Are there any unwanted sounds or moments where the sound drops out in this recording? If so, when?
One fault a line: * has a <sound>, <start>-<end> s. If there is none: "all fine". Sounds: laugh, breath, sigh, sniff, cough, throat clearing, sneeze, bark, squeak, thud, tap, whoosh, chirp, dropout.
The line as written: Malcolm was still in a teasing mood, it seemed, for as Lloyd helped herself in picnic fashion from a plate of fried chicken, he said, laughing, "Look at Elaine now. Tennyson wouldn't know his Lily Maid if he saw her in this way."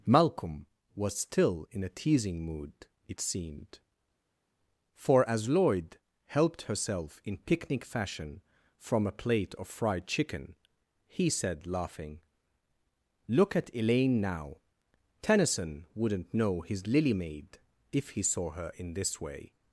all fine